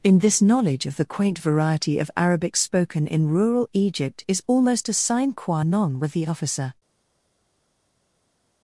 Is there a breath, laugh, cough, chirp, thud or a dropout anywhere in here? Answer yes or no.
no